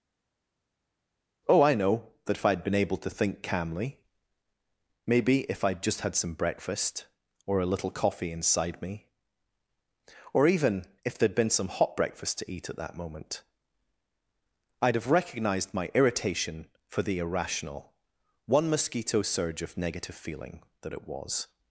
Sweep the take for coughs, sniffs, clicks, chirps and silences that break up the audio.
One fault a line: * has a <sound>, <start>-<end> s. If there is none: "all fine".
all fine